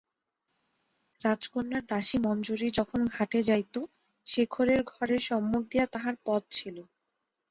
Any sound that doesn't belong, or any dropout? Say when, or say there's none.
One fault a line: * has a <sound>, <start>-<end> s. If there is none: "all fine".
all fine